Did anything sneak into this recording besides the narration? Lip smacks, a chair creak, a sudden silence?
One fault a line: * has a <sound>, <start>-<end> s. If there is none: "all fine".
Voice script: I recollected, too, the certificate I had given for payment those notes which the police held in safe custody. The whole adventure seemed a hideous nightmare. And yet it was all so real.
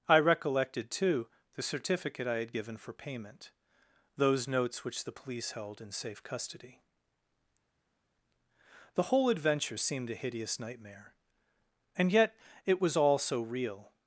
all fine